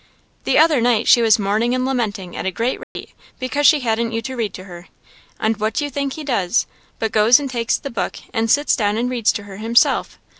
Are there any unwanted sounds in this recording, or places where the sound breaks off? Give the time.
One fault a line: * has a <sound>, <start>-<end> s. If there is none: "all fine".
* has a dropout, 2.8-3.0 s